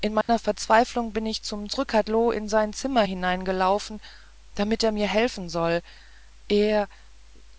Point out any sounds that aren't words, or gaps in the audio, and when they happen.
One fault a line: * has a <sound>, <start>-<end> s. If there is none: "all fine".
* has a dropout, 0.2-0.3 s